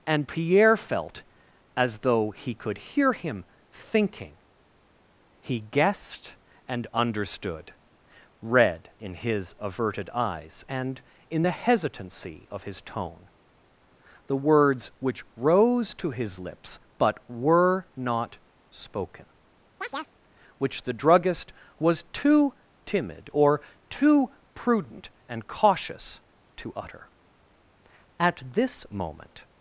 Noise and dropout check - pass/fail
fail